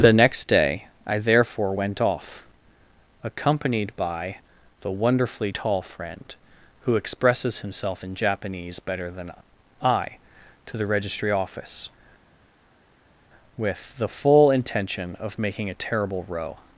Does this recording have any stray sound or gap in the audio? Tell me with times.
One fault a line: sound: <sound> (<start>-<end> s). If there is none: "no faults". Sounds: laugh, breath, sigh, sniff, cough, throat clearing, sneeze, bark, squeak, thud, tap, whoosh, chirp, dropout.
no faults